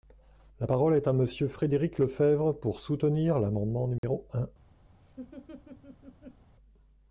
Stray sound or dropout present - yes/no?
yes